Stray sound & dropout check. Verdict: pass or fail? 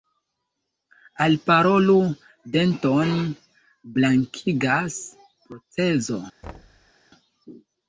fail